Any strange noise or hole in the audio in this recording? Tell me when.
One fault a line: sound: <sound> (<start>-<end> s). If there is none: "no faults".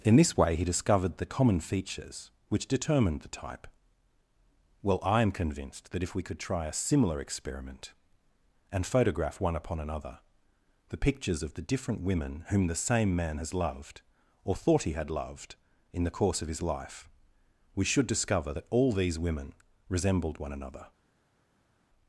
no faults